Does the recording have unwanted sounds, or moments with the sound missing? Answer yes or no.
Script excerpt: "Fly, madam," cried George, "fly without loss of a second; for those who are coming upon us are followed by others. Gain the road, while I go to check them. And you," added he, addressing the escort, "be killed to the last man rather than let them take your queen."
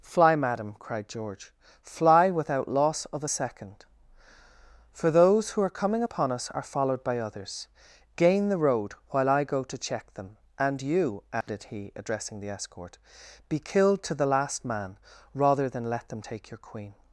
yes